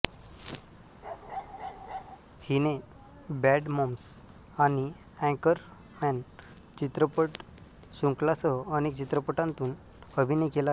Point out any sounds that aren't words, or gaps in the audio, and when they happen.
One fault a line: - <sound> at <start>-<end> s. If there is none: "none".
- bark at 1.0-2.2 s